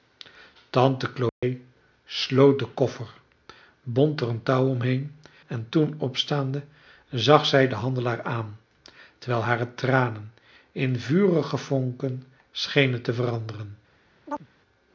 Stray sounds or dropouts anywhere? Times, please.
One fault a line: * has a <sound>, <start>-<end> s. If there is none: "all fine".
* has a dropout, 1.3-1.4 s
* has a chirp, 14.3-14.5 s